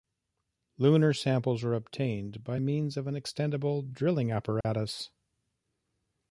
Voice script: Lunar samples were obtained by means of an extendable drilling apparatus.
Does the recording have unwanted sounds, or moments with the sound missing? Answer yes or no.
yes